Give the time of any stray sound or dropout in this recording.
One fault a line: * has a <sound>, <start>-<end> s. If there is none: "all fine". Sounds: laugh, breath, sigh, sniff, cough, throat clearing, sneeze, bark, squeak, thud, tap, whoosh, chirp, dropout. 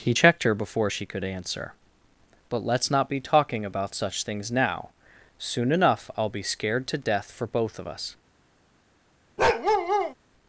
* has a bark, 9.4-10.1 s